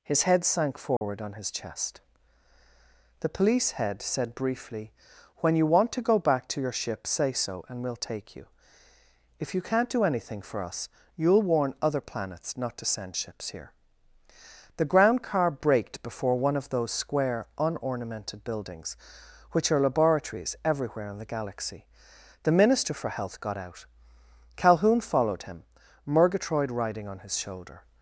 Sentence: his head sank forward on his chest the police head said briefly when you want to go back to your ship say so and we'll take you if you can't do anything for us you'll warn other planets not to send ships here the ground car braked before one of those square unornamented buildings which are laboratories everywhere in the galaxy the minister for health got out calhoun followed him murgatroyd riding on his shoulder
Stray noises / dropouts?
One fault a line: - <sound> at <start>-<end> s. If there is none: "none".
- dropout at 1.0-1.0 s